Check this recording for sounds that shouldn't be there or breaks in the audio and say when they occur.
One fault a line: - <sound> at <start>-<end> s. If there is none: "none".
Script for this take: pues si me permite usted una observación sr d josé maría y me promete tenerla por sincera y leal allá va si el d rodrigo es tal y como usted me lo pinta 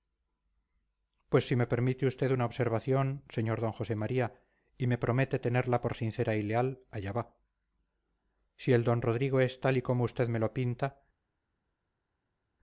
none